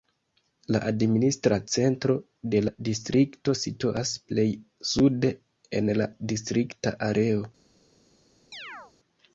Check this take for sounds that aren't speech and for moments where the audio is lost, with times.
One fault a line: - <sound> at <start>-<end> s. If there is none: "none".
- chirp at 8.5-8.9 s